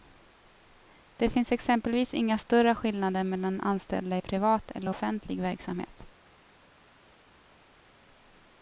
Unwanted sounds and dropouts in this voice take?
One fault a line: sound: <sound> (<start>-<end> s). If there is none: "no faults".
no faults